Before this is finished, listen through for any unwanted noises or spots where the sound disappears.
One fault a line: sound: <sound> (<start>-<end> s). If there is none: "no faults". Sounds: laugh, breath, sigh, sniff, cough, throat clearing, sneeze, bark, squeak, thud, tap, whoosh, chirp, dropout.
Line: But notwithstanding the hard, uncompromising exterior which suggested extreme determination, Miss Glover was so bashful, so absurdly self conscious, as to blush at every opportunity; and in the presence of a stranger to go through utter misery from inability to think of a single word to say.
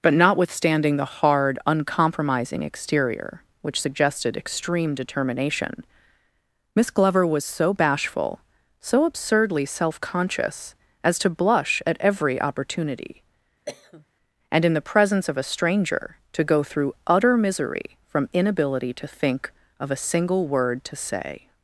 sound: cough (13.7-14.1 s)